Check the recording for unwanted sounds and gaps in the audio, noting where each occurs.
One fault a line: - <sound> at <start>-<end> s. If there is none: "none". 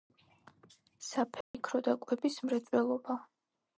- dropout at 1.4-1.5 s